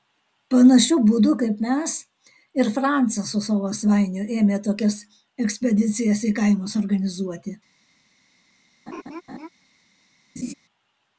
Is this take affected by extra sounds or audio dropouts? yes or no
yes